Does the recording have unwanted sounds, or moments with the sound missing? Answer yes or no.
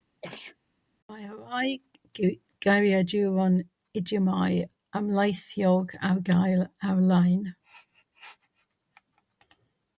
yes